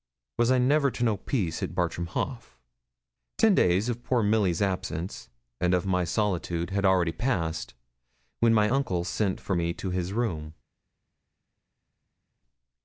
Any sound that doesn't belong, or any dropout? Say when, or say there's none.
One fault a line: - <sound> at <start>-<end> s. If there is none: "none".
none